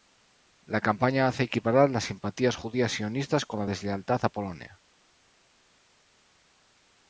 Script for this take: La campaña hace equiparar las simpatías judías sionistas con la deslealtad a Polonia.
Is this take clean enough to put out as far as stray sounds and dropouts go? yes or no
yes